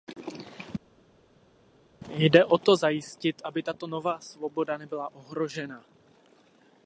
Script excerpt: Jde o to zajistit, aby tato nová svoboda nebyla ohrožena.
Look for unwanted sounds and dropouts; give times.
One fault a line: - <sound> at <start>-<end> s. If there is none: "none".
none